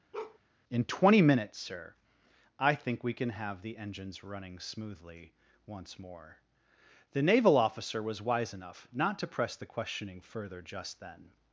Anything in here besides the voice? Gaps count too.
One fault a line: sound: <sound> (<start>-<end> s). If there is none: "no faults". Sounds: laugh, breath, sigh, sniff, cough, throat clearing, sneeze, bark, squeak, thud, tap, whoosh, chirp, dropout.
sound: bark (0.1-0.4 s)